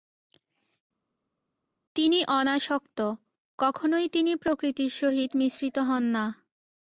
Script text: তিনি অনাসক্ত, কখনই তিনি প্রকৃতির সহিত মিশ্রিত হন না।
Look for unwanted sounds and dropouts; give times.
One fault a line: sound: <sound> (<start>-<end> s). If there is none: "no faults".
no faults